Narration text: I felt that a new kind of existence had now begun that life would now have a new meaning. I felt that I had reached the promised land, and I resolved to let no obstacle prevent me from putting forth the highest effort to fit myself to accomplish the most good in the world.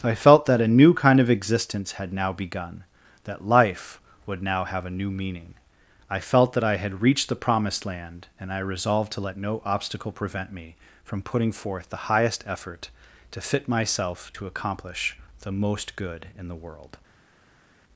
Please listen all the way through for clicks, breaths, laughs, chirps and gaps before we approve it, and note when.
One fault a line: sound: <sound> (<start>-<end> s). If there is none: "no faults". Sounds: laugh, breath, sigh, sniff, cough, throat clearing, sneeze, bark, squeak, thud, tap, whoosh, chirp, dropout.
no faults